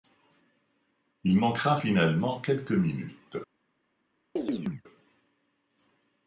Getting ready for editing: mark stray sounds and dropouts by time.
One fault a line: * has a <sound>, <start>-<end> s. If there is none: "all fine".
* has a chirp, 4.4-4.8 s